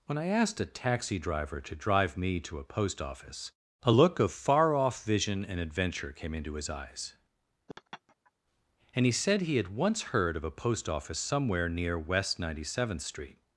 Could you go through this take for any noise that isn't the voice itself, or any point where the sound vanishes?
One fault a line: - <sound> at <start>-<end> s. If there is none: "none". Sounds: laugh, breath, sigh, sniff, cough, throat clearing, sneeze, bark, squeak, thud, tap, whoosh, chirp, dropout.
- laugh at 7.7-8.3 s